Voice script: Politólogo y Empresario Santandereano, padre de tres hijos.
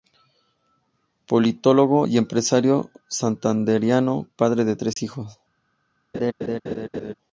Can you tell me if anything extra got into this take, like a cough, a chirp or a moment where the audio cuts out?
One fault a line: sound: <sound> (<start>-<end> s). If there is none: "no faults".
sound: dropout (4.9-5.0 s)
sound: laugh (6.1-7.1 s)